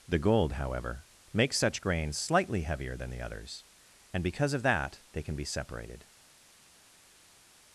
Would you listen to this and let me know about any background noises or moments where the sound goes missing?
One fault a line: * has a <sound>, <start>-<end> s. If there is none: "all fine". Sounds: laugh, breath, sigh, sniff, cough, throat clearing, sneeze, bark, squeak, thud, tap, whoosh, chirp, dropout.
all fine